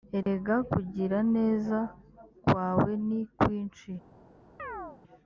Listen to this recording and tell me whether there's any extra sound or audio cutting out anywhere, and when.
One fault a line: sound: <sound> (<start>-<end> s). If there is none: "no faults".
sound: dropout (0.2-0.3 s)
sound: chirp (4.6-5.0 s)